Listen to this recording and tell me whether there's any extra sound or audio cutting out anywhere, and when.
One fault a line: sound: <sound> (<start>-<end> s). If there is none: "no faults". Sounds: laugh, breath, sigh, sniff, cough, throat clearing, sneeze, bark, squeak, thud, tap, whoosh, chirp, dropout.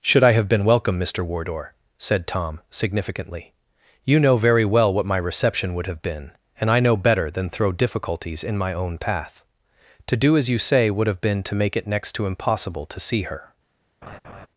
sound: laugh (14.0-14.5 s)